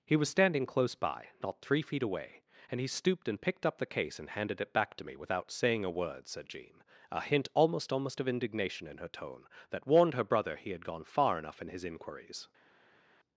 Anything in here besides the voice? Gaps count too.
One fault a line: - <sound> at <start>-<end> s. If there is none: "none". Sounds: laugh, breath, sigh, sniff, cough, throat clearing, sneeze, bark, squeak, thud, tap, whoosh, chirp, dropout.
none